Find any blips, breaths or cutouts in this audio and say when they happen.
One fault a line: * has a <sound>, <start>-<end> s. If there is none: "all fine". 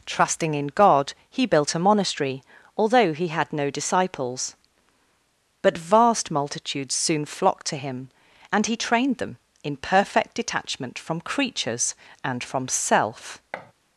* has a thud, 13.5-13.7 s